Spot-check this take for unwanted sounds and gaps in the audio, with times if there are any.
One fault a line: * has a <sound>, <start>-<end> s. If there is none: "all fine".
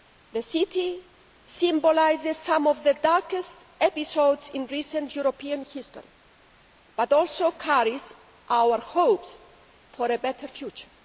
all fine